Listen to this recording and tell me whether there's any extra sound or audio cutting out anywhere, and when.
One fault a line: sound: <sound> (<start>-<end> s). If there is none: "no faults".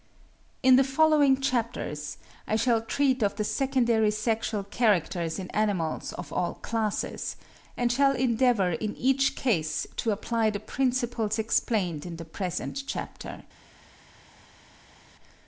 no faults